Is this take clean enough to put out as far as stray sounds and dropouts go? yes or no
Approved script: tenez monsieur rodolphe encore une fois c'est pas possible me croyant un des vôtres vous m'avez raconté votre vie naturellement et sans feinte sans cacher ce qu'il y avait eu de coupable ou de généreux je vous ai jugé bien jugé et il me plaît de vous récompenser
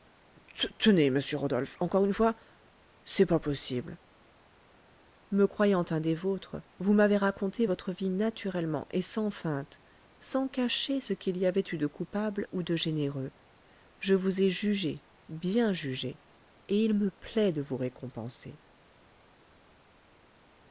yes